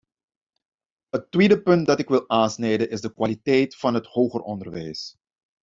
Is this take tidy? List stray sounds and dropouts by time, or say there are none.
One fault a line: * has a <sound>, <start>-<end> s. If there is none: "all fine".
all fine